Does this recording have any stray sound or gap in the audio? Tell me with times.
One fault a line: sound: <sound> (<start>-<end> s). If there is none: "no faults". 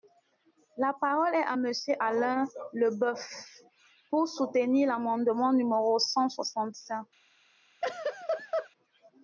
sound: laugh (7.8-8.7 s)